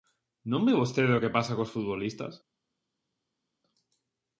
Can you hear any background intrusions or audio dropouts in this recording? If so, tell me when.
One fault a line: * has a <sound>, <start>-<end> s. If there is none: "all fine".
all fine